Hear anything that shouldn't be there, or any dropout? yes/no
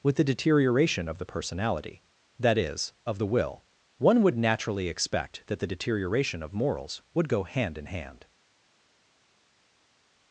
no